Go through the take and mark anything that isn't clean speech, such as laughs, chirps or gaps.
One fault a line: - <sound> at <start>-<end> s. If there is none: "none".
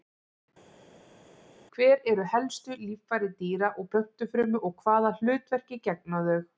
none